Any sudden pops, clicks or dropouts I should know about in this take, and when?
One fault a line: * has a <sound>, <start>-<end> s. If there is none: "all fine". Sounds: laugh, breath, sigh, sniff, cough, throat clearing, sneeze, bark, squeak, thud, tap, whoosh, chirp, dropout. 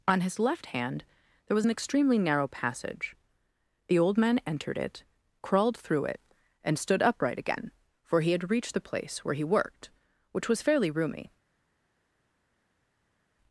all fine